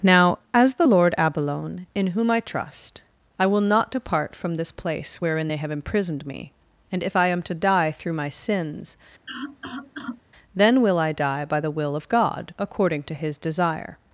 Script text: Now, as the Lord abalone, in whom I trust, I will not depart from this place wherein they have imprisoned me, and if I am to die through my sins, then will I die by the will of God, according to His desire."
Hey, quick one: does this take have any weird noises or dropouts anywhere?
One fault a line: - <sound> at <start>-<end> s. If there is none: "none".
- cough at 9.3-10.2 s